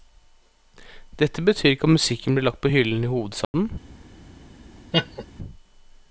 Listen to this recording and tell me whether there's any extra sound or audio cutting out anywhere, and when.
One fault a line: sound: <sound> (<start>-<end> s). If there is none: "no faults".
sound: dropout (3.4-3.5 s)
sound: laugh (4.9-5.2 s)